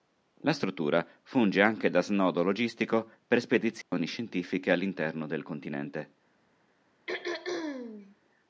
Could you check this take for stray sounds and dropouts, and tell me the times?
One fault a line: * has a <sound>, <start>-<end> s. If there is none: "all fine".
* has a dropout, 3.8-3.9 s
* has a throat clearing, 7.1-8.2 s